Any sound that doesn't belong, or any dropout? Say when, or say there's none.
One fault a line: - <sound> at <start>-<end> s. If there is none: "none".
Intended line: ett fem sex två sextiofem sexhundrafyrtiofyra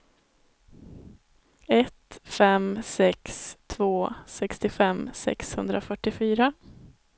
none